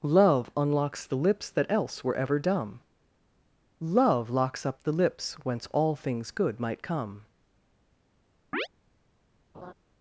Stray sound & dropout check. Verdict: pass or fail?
fail